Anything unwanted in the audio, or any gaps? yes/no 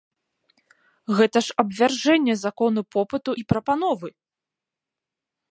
no